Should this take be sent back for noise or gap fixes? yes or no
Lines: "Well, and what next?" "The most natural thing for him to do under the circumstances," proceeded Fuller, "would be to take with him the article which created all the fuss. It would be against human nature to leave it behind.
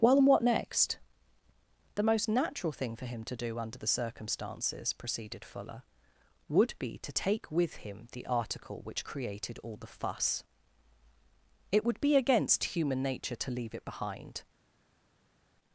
no